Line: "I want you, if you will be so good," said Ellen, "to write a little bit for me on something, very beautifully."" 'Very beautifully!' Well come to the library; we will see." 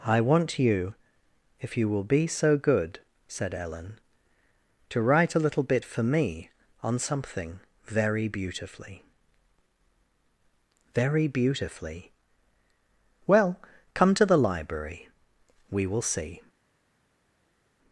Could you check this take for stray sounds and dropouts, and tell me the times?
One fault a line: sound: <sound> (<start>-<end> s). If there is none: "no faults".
no faults